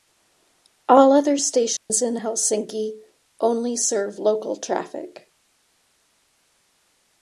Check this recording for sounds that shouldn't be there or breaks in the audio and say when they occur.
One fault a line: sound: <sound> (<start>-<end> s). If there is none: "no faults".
sound: dropout (1.8-1.9 s)